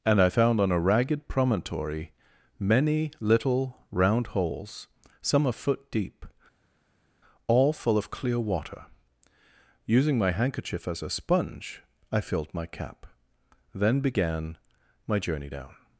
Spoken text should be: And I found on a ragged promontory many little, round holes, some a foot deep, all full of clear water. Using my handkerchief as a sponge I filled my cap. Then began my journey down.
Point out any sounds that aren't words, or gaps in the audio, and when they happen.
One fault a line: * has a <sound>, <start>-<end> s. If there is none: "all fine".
all fine